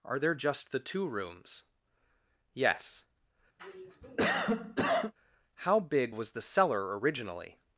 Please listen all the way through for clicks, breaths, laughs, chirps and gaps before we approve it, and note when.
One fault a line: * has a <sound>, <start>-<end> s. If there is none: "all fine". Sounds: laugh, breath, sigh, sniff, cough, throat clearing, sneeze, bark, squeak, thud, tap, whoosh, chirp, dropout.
* has a cough, 3.6-5.1 s